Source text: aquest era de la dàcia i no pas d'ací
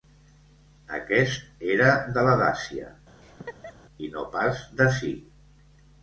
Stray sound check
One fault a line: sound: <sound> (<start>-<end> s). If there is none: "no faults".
sound: laugh (3.2-3.7 s)